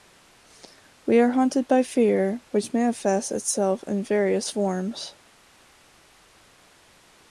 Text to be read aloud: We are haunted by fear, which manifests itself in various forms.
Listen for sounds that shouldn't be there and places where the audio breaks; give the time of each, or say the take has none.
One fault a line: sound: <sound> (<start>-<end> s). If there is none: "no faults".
no faults